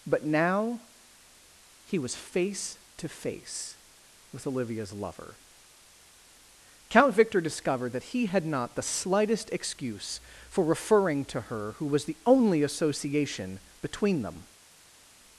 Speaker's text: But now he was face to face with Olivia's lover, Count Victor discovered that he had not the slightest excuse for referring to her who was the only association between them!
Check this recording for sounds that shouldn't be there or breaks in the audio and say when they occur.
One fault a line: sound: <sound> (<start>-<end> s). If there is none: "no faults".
no faults